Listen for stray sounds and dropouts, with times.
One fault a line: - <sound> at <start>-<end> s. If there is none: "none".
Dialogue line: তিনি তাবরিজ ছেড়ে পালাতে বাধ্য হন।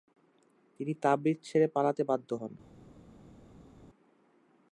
none